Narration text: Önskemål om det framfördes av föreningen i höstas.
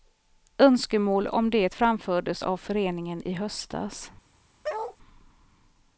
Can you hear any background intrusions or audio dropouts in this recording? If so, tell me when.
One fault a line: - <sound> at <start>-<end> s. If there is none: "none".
- bark at 4.6-5.0 s